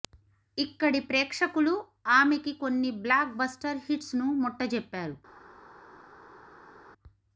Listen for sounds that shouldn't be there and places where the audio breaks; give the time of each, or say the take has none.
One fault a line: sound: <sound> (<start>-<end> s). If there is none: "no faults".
no faults